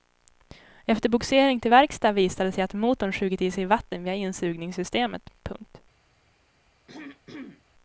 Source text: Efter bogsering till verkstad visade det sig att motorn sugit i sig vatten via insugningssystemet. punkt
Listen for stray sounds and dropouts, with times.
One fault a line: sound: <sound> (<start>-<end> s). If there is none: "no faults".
sound: throat clearing (6.9-7.6 s)